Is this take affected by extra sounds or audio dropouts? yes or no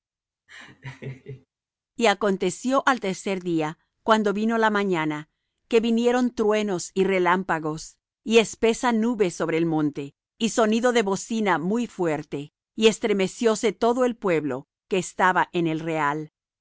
yes